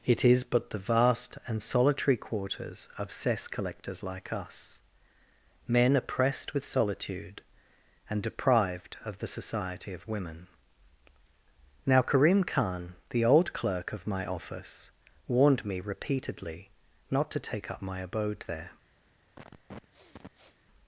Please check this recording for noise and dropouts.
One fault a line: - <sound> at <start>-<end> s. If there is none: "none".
- sniff at 19.4-20.6 s